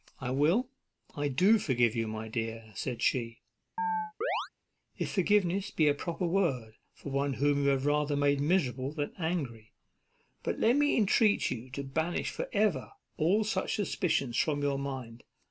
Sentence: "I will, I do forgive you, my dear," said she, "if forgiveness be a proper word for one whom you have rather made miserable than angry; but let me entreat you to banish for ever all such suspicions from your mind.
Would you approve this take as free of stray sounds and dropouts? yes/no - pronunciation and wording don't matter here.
no